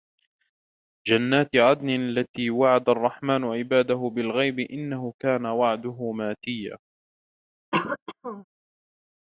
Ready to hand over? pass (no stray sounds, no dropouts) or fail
fail